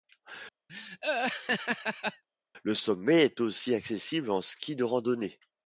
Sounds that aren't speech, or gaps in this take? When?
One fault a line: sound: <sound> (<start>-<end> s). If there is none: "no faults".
sound: laugh (0.7-2.2 s)